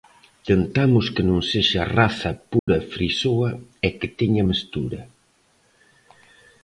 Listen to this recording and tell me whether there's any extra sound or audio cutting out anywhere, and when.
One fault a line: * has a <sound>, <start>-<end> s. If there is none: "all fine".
* has a dropout, 2.6-2.7 s